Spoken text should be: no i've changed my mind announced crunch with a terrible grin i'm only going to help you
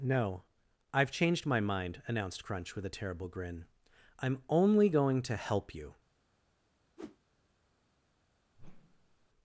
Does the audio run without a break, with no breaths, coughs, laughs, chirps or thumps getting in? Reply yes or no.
no